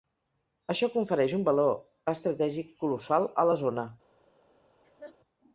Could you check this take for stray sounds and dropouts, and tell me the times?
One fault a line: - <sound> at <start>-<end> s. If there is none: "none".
- laugh at 4.8-5.2 s